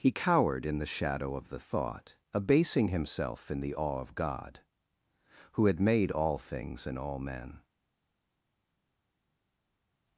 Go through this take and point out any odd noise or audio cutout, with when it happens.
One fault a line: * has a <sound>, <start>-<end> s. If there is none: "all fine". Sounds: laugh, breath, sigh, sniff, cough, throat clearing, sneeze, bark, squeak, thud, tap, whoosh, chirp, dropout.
all fine